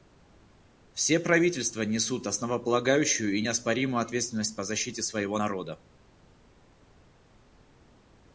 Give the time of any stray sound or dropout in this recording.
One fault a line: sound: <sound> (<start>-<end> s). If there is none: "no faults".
no faults